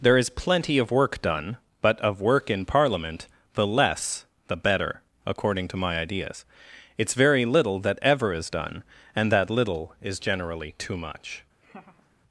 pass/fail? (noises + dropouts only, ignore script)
fail